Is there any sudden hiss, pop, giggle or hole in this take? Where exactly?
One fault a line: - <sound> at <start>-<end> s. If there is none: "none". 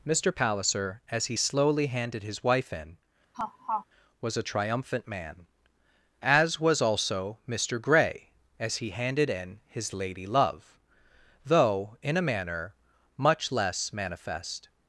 - laugh at 3.3-3.9 s